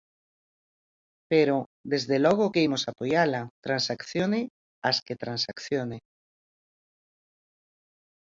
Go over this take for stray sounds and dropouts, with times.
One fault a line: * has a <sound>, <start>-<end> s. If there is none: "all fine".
all fine